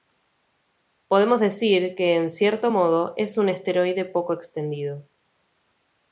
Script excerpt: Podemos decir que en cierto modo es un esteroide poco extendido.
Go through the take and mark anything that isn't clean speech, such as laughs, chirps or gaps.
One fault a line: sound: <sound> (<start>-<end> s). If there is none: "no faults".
no faults